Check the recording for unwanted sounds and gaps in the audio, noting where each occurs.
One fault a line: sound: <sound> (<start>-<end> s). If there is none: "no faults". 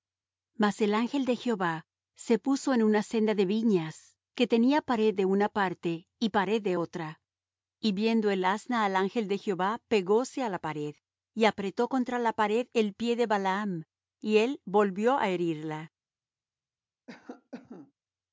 sound: cough (17.1-17.9 s)